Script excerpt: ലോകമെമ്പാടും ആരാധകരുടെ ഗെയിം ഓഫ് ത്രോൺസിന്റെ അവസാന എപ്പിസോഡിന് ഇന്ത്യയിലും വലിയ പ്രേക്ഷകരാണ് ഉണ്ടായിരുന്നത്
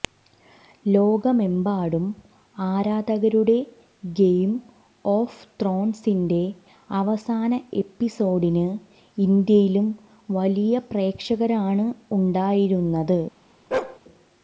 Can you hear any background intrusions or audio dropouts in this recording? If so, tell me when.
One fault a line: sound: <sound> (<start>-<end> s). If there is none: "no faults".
sound: bark (13.7-14.0 s)